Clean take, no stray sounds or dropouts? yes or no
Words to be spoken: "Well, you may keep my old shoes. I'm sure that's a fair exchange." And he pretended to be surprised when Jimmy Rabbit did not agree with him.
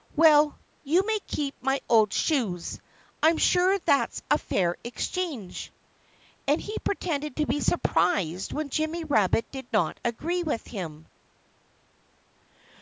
yes